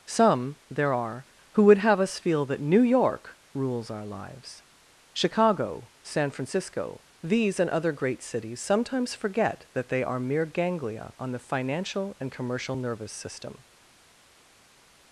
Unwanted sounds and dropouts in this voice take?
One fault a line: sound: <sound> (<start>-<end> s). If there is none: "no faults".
no faults